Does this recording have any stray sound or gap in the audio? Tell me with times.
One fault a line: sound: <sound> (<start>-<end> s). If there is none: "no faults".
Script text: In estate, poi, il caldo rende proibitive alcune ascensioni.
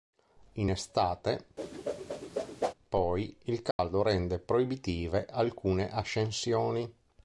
sound: whoosh (1.6-2.7 s)
sound: dropout (3.7-3.8 s)